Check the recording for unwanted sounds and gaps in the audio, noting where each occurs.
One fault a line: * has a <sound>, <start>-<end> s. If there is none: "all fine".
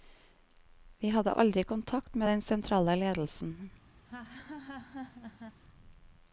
* has a laugh, 4.0-5.6 s